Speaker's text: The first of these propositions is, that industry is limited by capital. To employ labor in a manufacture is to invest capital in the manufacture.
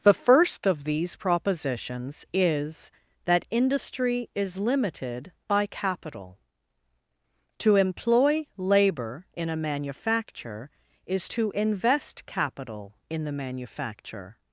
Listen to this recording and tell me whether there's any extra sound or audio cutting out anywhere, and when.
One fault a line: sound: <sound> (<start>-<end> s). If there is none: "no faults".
no faults